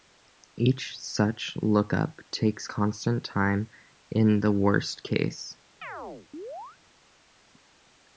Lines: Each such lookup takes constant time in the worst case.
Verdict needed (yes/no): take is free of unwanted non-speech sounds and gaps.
no